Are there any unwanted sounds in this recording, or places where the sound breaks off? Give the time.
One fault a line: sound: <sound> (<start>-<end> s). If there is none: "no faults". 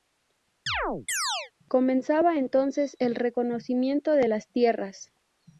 sound: chirp (0.7-1.5 s)